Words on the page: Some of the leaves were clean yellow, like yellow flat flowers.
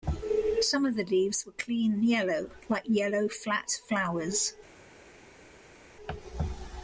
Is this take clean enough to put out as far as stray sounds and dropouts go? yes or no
yes